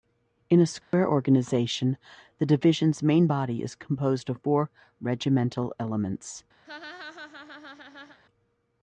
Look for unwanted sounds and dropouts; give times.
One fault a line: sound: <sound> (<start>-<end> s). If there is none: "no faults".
sound: dropout (0.8-0.9 s)
sound: laugh (6.6-8.2 s)